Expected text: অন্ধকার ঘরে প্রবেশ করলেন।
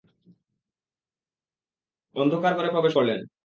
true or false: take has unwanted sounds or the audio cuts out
false